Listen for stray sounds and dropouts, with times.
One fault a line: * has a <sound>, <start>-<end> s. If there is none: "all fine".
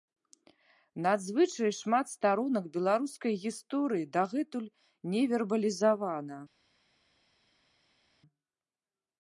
all fine